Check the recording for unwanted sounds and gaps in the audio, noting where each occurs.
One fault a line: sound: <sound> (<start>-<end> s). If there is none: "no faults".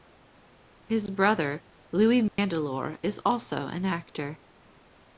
sound: dropout (2.3-2.4 s)